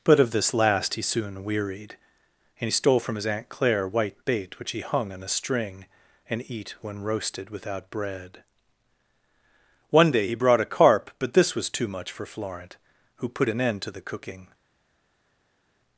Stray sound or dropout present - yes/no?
no